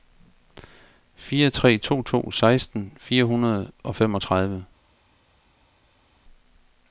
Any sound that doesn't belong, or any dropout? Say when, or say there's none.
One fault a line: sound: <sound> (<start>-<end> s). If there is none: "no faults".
no faults